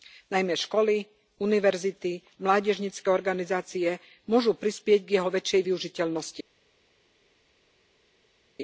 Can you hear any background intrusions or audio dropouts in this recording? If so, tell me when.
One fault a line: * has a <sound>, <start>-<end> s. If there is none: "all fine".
all fine